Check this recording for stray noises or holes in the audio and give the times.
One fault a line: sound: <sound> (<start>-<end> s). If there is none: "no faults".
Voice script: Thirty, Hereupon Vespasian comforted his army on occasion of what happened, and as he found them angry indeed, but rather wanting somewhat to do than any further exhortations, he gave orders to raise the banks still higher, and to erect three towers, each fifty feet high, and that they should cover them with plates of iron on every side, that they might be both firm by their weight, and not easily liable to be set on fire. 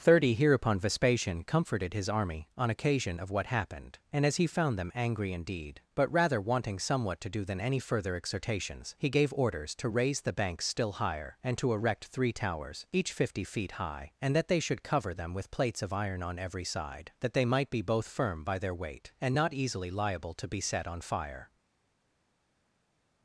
no faults